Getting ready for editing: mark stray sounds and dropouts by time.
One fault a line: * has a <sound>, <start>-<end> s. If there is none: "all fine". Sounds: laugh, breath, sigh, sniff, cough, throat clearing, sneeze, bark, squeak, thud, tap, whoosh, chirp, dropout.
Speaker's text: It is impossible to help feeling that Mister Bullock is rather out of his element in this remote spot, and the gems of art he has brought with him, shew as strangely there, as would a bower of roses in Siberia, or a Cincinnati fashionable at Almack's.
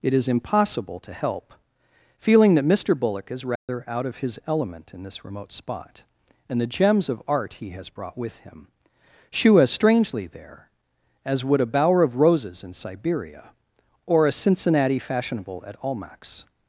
* has a dropout, 3.6-3.7 s